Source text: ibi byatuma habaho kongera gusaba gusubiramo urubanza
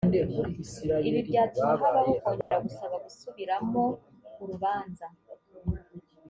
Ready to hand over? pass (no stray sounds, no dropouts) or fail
fail